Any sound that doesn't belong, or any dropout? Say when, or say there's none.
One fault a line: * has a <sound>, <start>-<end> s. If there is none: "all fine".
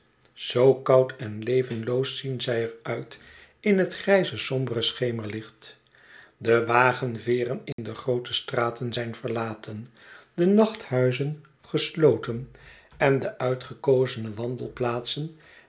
* has a dropout, 7.7-7.8 s